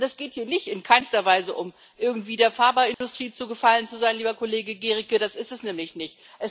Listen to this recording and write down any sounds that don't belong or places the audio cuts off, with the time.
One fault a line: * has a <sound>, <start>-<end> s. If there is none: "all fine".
* has a dropout, 2.9-3.0 s